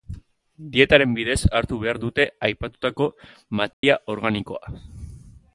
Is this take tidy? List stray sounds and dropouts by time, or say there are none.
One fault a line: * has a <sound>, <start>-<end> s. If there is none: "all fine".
* has a dropout, 3.7-3.8 s